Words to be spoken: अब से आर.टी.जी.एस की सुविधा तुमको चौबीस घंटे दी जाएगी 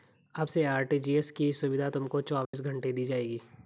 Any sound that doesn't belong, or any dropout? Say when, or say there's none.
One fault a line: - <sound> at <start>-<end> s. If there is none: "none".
- dropout at 2.4-2.5 s